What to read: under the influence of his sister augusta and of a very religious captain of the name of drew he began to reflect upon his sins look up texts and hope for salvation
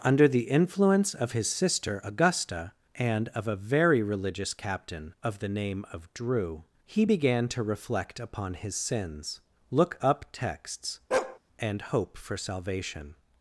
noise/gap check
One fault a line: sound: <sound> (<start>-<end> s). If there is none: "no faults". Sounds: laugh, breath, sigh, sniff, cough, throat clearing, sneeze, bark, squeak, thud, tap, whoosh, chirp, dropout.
sound: bark (11.1-11.4 s)